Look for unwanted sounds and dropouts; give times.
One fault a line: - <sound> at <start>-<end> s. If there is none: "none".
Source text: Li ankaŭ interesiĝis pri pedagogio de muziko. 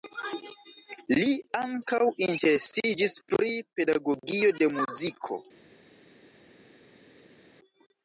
none